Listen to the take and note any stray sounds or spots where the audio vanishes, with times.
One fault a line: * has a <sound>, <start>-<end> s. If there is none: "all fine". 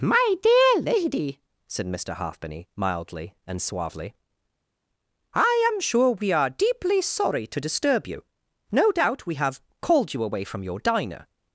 all fine